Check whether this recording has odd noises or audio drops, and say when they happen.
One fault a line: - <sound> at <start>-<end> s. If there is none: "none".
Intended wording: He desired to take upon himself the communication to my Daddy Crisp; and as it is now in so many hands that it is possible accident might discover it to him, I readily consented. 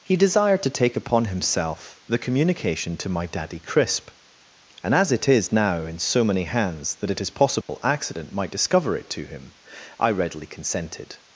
- dropout at 7.6-7.7 s